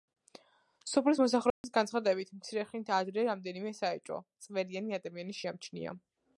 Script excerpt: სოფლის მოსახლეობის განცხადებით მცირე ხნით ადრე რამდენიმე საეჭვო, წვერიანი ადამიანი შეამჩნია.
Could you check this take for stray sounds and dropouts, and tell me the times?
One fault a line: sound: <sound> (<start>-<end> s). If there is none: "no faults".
sound: dropout (1.5-1.6 s)